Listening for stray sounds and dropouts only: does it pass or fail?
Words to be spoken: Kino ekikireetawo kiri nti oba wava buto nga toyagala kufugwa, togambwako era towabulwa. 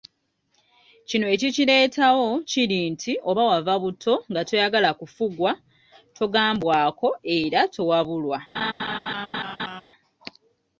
fail